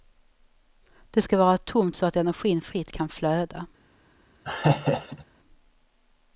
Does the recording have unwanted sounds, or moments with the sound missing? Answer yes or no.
yes